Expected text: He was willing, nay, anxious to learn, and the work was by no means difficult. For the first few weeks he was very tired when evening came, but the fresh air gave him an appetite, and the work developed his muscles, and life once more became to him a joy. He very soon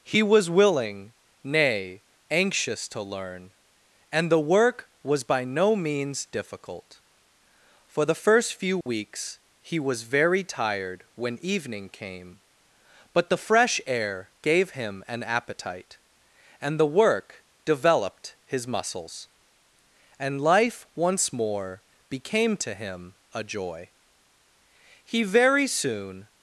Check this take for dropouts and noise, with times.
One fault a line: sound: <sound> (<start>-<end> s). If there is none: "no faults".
sound: dropout (8.8-8.9 s)